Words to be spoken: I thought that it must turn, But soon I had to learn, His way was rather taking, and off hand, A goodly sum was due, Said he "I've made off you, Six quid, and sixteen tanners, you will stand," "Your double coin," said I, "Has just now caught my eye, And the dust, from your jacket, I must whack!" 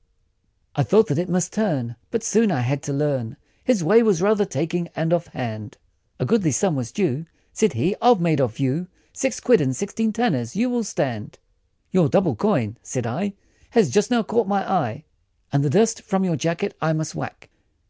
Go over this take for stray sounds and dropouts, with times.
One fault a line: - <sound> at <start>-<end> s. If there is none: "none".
none